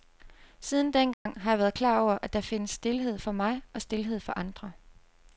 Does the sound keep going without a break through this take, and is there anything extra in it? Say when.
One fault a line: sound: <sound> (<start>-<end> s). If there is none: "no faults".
sound: dropout (1.1-1.3 s)